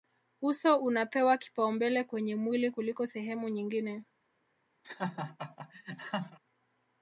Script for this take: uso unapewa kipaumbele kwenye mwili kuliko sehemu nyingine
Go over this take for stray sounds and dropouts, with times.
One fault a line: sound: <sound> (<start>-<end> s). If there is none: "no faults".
sound: laugh (4.8-6.4 s)